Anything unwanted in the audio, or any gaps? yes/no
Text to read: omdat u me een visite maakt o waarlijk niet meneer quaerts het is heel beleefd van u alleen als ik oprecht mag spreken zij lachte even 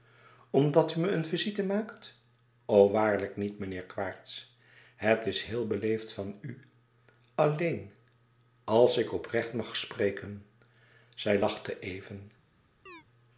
yes